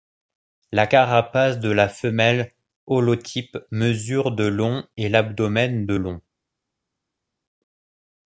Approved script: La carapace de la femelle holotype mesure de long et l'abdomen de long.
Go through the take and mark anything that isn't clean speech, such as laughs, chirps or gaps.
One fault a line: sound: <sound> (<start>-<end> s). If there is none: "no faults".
no faults